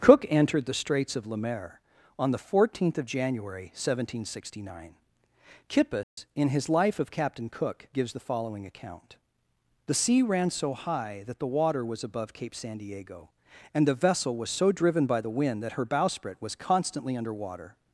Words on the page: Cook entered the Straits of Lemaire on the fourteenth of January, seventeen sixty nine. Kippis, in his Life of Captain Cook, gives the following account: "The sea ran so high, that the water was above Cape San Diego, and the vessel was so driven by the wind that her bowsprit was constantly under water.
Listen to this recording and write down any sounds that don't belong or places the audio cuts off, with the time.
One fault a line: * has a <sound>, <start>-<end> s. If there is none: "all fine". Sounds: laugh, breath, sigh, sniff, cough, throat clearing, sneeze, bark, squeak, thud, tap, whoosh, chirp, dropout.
* has a dropout, 6.0-6.2 s